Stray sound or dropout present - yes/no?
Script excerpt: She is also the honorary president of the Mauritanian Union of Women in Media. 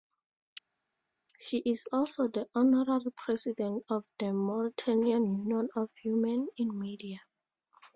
no